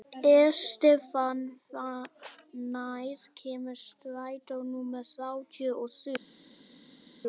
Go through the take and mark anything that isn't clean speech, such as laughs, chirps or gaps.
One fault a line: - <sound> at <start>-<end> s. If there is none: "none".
none